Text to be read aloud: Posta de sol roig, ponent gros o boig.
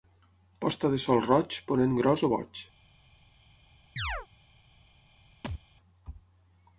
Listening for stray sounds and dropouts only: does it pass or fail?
fail